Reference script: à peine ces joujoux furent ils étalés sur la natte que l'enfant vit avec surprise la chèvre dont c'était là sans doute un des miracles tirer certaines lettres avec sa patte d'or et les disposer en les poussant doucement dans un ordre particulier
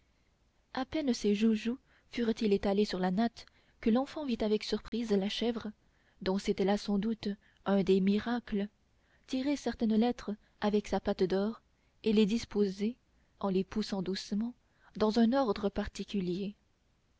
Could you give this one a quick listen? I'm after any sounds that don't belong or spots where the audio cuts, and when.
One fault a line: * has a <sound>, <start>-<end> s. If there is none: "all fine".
* has a dropout, 4.9-4.9 s